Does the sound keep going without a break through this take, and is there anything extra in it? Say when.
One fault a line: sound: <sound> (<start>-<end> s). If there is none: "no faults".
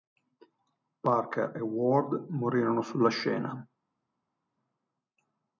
no faults